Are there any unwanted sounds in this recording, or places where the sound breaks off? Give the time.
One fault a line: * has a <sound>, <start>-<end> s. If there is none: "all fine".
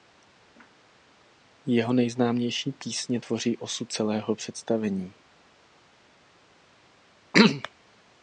all fine